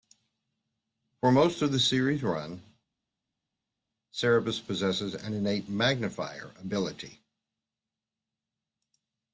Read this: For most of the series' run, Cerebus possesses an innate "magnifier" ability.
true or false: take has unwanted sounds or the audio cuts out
false